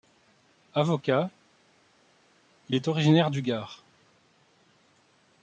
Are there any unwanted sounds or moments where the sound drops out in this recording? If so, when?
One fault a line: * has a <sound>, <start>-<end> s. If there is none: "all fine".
all fine